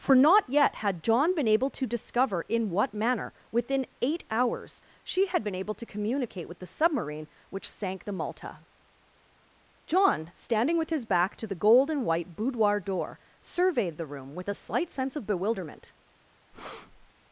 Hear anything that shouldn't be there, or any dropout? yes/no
yes